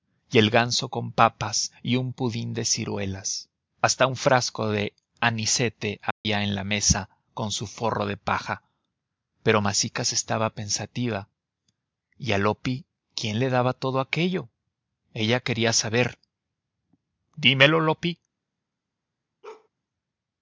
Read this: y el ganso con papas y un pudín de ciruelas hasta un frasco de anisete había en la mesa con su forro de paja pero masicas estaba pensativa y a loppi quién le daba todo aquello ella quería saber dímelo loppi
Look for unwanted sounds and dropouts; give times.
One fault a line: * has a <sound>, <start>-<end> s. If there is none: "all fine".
* has a dropout, 6.1-6.3 s
* has a bark, 19.4-19.7 s